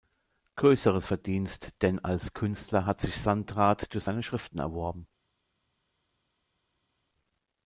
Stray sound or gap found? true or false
false